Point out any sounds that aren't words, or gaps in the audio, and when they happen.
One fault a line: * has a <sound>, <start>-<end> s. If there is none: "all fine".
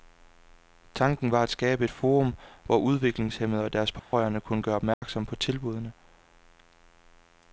* has a dropout, 4.0-4.1 s
* has a dropout, 4.9-5.0 s